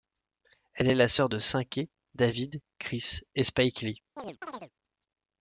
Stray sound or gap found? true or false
true